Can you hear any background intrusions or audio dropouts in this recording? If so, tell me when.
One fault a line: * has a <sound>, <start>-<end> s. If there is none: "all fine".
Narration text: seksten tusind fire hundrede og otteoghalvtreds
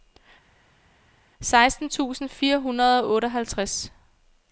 all fine